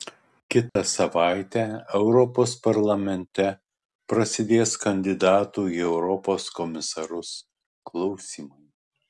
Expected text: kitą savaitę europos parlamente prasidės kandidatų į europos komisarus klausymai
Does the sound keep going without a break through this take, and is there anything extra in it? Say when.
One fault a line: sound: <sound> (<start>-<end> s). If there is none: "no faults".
sound: dropout (0.7-0.8 s)